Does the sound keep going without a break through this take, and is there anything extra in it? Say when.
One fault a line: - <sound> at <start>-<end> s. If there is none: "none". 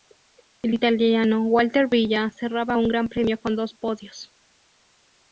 none